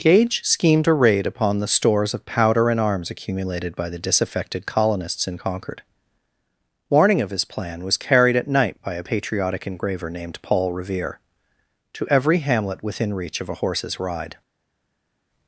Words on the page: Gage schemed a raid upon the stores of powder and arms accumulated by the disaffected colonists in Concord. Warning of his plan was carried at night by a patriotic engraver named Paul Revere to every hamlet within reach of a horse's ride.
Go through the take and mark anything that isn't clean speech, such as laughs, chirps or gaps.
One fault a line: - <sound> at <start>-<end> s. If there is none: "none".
none